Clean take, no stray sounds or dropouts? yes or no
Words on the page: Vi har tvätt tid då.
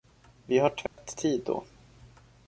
no